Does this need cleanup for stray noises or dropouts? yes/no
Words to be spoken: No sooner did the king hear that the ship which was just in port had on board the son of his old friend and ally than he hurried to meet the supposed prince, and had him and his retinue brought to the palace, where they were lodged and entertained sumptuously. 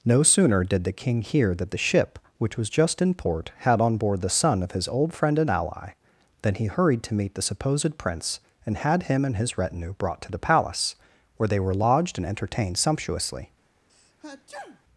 yes